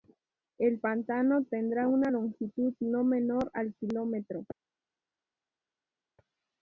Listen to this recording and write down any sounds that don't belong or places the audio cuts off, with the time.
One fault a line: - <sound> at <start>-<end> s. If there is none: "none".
none